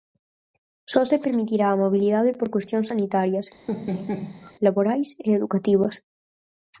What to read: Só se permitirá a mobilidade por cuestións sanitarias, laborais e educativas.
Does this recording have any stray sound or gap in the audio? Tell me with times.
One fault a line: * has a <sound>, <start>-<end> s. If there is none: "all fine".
* has a laugh, 3.7-4.5 s